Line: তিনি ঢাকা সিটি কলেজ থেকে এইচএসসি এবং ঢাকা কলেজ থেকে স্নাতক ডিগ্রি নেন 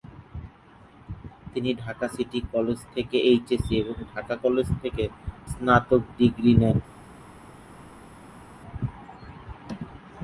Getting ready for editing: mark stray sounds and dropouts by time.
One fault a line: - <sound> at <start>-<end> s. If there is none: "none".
none